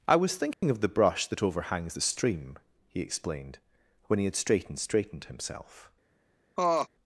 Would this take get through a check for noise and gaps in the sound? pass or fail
fail